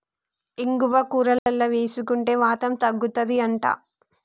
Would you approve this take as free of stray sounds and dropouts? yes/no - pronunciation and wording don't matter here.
no